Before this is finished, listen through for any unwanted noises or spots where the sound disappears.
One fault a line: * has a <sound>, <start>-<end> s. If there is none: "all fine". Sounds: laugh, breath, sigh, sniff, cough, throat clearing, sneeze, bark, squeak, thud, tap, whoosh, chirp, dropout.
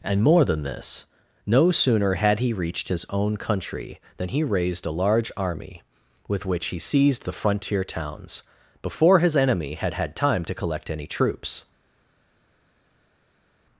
all fine